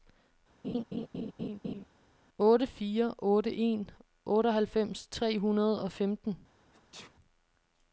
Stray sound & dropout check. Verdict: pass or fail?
fail